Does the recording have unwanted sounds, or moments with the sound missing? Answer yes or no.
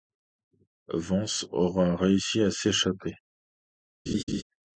yes